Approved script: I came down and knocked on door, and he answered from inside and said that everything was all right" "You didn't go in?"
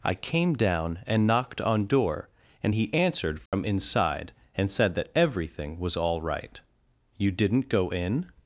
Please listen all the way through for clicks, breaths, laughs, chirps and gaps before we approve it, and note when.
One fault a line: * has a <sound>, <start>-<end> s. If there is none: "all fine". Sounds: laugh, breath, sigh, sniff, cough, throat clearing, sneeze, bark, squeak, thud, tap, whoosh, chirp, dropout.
* has a dropout, 3.5-3.5 s